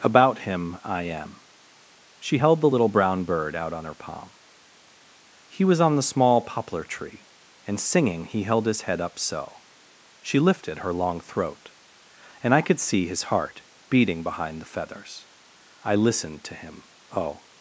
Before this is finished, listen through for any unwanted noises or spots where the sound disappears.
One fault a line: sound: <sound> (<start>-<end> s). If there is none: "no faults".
no faults